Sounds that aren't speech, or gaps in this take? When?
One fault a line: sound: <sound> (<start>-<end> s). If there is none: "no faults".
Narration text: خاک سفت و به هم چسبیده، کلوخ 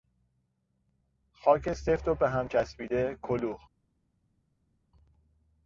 no faults